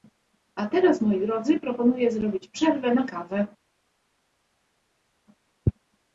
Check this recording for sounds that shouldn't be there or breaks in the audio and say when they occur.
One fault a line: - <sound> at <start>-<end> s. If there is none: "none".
none